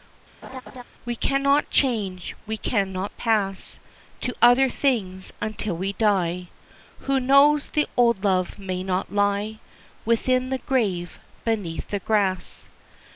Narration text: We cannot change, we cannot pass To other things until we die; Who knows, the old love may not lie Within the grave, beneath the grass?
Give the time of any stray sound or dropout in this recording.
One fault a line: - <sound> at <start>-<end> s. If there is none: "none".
- laugh at 0.4-0.8 s